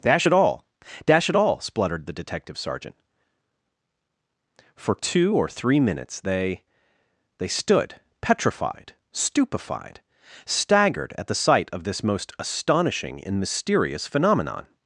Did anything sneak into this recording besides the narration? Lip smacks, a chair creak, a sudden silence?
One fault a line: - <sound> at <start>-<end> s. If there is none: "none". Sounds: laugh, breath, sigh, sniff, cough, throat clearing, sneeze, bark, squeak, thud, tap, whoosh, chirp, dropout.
none